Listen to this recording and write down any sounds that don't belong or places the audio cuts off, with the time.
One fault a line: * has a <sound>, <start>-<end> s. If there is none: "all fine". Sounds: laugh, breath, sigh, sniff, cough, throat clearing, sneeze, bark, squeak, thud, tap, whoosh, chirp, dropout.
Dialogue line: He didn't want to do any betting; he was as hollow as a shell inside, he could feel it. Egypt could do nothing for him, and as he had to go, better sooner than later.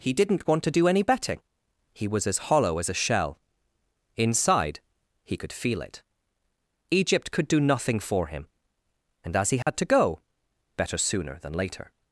* has a dropout, 9.6-9.7 s